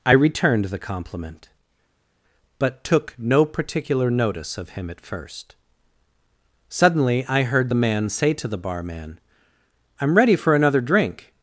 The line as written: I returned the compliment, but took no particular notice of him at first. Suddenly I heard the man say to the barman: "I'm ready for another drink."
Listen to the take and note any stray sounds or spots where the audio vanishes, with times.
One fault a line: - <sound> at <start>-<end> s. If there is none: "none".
none